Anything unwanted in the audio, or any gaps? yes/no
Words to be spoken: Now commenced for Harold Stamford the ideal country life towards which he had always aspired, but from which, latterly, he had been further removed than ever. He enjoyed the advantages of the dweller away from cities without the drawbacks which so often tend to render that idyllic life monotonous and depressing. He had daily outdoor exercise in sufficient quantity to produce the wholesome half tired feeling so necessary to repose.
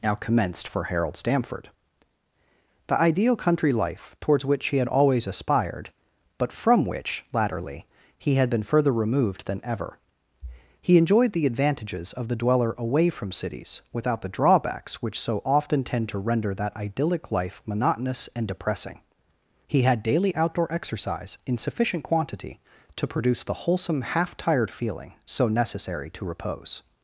no